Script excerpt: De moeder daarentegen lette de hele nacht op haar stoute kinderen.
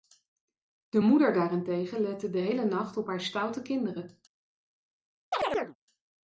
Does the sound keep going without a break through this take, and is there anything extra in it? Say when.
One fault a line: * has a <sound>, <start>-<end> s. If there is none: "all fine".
* has a chirp, 5.3-5.8 s